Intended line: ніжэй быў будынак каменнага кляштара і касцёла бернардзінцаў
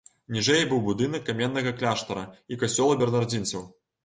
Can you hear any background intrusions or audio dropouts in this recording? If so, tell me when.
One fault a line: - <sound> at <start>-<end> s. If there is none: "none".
none